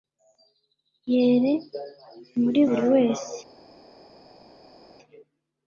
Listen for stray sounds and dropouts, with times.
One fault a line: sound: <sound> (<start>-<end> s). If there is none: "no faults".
no faults